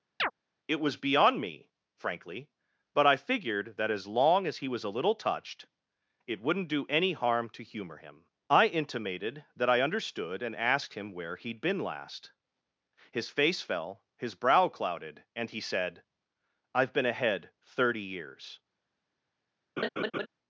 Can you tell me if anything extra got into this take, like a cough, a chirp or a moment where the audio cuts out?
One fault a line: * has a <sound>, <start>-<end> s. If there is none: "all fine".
* has a chirp, 0.2-0.3 s
* has a laugh, 19.8-20.3 s